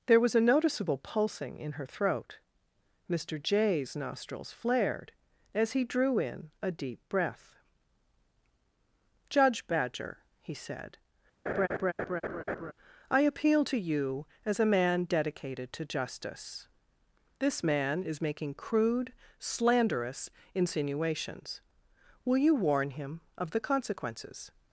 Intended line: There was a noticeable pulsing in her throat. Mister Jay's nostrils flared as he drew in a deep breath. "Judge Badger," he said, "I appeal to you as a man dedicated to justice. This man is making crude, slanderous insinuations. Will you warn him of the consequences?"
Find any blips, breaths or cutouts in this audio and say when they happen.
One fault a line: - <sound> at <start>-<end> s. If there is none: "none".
- laugh at 11.5-12.7 s